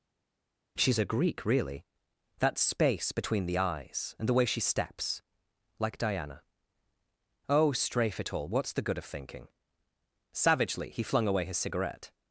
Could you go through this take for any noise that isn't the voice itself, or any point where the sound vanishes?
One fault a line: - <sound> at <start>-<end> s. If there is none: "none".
none